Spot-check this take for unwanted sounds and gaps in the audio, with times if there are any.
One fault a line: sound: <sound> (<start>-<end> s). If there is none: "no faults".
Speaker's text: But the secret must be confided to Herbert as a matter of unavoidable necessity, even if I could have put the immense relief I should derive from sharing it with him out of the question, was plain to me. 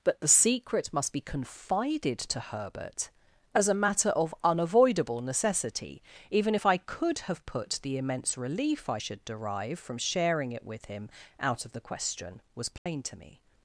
sound: dropout (12.8-12.9 s)